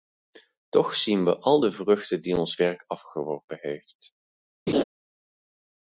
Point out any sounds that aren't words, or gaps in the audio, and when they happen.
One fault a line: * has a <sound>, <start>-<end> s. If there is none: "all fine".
* has a laugh, 4.7-4.8 s